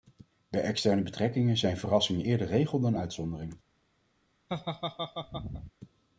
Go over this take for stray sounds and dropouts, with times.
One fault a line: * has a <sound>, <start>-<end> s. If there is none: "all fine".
* has a laugh, 4.5-5.7 s